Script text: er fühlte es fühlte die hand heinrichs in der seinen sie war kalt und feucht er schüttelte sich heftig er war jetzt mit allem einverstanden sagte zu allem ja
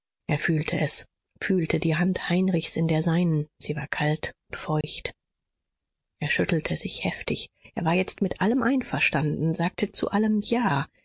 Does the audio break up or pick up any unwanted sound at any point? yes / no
yes